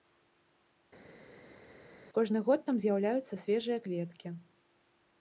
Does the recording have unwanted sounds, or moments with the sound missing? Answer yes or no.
no